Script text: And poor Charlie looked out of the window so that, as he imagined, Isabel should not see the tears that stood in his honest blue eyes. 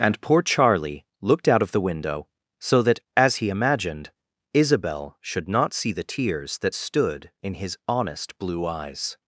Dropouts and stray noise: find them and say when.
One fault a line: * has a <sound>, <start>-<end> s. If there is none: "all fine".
all fine